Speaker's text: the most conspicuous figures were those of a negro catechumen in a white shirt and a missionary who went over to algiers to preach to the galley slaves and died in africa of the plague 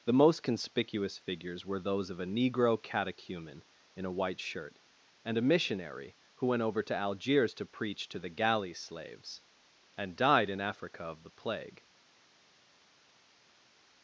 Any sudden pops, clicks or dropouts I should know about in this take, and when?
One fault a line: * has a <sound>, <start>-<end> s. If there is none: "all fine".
all fine